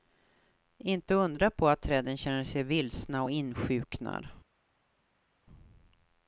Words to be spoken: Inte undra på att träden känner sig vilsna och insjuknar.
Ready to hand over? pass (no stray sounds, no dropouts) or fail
pass